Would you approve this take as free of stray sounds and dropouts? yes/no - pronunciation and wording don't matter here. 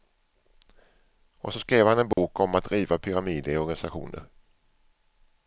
no